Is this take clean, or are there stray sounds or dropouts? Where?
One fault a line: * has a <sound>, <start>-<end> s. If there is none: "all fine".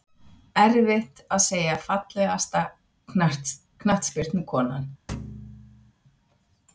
* has a thud, 5.1-5.9 s